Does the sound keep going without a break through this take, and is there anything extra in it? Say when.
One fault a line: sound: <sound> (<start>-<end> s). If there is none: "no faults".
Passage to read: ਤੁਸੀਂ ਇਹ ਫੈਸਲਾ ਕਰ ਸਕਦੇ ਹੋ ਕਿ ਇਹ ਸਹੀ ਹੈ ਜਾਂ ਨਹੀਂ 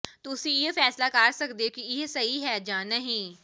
no faults